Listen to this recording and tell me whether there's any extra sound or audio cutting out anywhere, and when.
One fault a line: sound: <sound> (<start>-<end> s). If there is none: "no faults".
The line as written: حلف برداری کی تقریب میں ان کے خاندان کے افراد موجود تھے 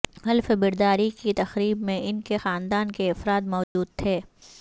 sound: dropout (3.6-3.8 s)